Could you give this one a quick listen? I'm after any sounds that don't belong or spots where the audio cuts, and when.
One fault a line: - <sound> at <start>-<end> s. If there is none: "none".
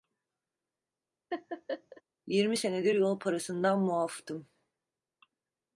- laugh at 1.3-2.0 s